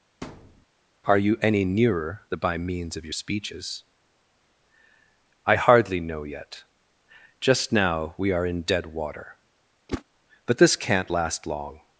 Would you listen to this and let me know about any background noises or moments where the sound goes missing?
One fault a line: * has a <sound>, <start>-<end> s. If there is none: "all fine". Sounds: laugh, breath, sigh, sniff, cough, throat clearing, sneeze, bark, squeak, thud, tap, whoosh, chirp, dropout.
* has a thud, 0.2-0.7 s
* has a whoosh, 9.9-10.0 s